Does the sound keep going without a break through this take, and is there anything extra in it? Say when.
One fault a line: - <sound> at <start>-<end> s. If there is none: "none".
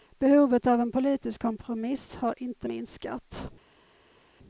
none